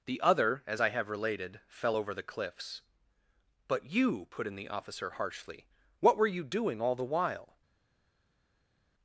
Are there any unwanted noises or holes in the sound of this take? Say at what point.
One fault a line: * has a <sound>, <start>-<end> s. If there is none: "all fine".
all fine